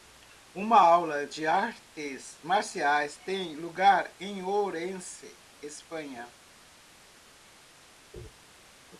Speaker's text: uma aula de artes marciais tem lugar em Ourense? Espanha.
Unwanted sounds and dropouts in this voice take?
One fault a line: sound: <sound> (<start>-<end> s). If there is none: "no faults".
no faults